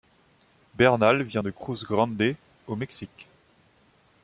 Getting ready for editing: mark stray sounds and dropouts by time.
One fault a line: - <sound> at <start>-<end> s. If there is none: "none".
none